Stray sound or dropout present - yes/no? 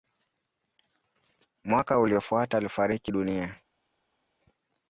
no